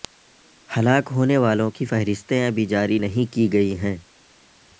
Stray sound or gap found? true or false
false